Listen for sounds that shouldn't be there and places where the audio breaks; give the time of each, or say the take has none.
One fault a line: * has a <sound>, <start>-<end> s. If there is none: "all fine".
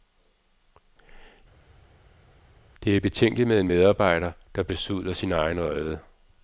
all fine